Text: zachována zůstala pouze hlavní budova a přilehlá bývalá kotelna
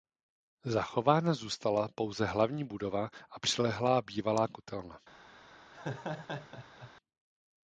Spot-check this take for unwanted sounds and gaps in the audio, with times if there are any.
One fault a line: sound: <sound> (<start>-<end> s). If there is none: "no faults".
sound: laugh (5.7-6.9 s)